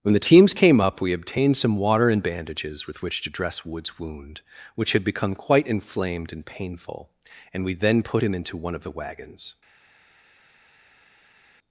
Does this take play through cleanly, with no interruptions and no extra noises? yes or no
yes